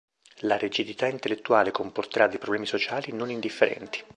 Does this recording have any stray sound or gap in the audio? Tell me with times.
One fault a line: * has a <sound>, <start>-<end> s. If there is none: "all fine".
all fine